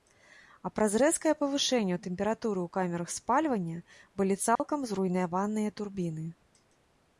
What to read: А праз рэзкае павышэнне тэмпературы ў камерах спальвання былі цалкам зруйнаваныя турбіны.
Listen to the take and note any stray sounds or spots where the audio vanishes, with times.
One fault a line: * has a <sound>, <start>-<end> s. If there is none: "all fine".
* has a dropout, 4.6-4.6 s